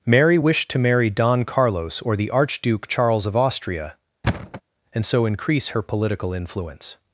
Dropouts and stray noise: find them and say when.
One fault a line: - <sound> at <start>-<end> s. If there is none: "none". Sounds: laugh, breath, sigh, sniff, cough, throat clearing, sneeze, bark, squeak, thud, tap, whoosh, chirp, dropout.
- thud at 4.2-4.6 s